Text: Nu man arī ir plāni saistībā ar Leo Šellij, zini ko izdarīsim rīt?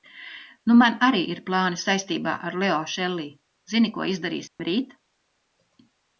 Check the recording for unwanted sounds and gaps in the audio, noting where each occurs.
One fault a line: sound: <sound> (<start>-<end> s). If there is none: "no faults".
sound: dropout (4.5-4.6 s)